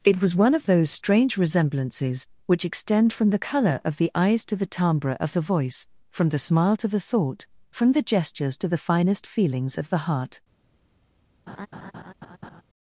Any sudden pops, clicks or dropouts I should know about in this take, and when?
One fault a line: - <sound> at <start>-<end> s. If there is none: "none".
- laugh at 11.5-12.6 s